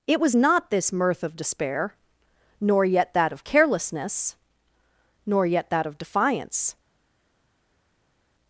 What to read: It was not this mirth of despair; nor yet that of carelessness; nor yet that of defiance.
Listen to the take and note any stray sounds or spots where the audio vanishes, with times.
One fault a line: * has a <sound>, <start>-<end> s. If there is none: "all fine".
all fine